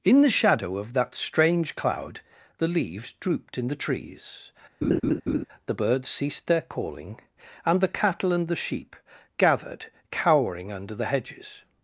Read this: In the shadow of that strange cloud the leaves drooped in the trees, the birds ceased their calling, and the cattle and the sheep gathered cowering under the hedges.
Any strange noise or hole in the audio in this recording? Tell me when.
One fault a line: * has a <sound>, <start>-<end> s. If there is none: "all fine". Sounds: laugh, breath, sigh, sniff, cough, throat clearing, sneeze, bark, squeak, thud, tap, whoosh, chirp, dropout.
* has a laugh, 4.8-5.5 s